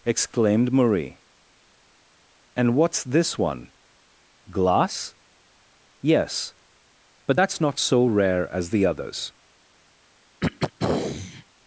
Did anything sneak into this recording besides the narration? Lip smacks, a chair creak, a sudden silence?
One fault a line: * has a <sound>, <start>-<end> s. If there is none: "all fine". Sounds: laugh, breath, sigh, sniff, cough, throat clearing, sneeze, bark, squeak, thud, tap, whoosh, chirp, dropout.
* has a throat clearing, 10.4-11.4 s